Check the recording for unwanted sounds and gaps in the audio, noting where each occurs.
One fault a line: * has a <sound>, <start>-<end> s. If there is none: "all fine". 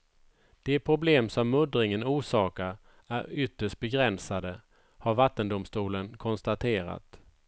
all fine